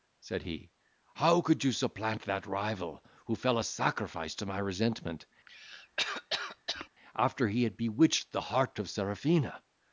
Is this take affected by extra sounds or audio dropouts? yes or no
yes